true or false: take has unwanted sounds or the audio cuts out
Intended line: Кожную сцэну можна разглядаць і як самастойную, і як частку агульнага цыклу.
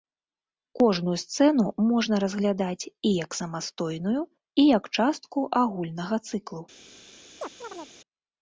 true